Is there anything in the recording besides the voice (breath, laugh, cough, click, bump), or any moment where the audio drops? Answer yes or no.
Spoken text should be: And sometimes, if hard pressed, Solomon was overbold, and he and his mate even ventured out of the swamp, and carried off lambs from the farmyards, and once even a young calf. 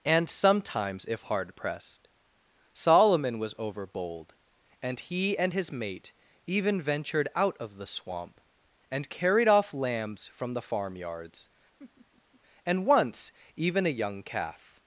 yes